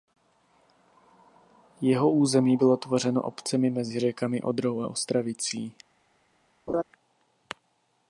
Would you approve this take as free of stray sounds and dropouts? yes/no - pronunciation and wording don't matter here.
no